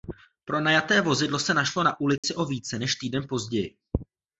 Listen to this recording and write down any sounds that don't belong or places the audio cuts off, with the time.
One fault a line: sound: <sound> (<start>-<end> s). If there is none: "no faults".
sound: dropout (2.2-2.2 s)